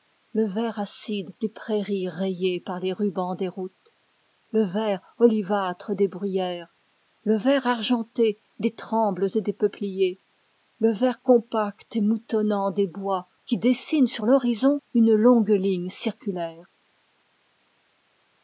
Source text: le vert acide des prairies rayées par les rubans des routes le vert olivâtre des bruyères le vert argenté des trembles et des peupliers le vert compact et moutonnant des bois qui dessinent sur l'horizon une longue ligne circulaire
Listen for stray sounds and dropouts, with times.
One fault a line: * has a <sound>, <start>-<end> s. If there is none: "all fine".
all fine